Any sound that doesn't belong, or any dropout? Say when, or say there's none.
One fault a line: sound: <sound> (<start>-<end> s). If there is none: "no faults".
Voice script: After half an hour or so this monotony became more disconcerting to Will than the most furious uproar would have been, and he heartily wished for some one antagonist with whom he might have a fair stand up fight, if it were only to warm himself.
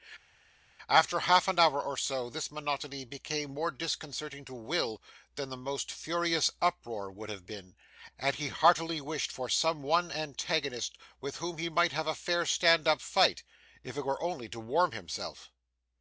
no faults